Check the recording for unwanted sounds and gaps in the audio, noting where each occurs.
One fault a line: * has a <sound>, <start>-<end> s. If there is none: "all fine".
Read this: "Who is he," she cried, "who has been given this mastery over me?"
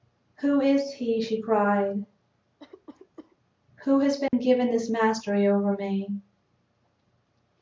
* has a cough, 2.6-3.4 s
* has a dropout, 4.3-4.3 s